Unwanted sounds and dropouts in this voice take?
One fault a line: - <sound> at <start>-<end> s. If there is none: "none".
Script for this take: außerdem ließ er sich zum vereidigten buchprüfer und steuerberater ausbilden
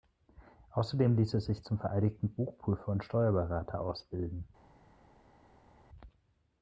none